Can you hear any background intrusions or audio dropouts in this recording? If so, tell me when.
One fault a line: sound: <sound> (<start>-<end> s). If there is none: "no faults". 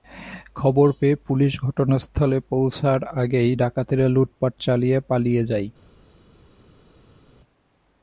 no faults